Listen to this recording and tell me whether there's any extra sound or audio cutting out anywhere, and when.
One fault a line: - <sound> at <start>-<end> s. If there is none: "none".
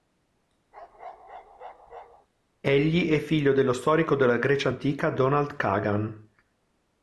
- bark at 0.7-2.3 s